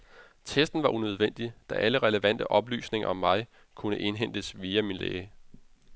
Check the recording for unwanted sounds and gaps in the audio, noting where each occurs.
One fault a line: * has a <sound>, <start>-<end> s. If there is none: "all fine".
all fine